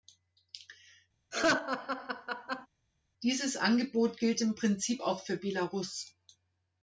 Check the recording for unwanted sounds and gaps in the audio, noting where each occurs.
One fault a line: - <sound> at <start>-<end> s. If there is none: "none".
- laugh at 1.3-2.7 s